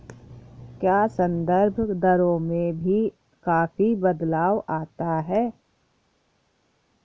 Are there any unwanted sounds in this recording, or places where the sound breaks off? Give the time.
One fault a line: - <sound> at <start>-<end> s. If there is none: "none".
none